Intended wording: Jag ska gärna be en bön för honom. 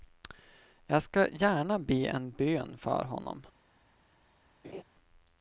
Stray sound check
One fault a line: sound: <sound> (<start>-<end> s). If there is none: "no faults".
sound: laugh (4.6-4.8 s)